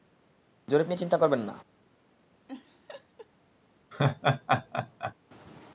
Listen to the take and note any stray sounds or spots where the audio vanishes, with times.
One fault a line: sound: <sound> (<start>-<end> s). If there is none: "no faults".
sound: laugh (2.5-3.3 s)
sound: laugh (3.9-5.1 s)